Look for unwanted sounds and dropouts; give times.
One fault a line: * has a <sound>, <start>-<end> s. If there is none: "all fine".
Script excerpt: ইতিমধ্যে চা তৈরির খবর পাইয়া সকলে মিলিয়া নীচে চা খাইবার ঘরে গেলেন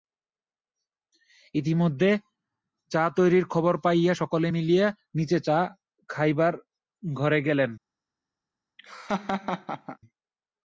* has a laugh, 8.8-10.0 s